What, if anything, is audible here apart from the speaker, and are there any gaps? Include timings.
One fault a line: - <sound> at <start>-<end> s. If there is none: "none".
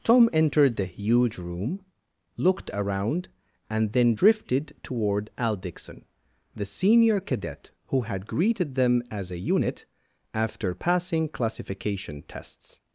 none